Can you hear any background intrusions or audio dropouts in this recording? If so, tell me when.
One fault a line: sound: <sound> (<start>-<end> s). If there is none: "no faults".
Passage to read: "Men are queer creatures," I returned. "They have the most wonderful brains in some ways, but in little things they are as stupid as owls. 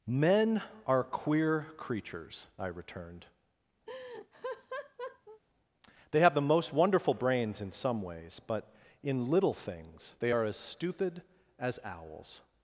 sound: laugh (3.9-5.4 s)